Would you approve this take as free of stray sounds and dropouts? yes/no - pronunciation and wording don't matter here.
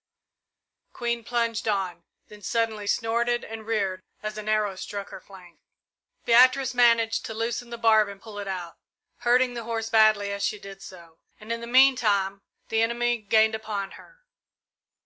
yes